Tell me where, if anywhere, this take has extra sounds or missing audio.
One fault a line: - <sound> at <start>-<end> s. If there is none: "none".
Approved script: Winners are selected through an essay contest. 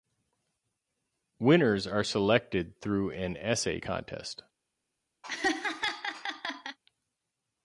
- laugh at 5.2-6.8 s